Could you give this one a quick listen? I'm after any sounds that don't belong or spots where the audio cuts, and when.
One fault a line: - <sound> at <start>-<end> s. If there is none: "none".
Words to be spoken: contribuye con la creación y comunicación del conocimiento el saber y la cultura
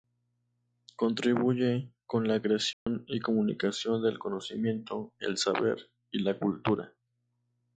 - dropout at 2.7-2.9 s